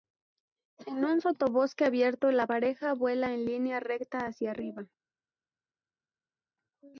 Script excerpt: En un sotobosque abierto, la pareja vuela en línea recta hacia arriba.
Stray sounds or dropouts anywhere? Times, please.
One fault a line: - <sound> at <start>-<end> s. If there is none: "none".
none